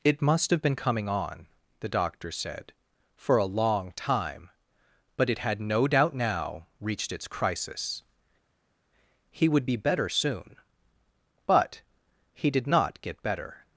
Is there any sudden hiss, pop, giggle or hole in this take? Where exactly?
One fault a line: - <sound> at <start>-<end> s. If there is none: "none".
none